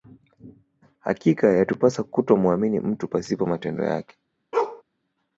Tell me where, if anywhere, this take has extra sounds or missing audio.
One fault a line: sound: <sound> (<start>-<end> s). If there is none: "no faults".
sound: bark (4.5-4.8 s)